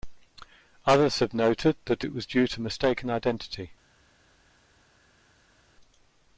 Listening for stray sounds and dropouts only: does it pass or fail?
pass